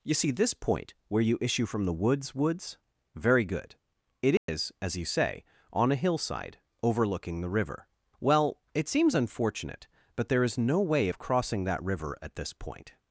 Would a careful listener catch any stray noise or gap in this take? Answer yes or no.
yes